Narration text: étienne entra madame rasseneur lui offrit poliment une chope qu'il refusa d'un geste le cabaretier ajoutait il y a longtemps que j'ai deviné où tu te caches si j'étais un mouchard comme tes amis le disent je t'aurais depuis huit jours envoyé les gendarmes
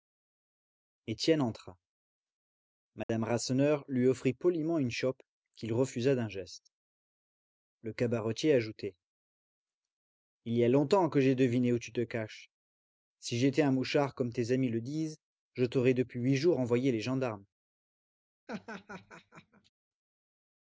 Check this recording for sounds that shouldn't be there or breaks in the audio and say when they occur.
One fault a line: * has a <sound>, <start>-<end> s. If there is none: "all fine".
* has a dropout, 3.0-3.1 s
* has a laugh, 18.5-19.7 s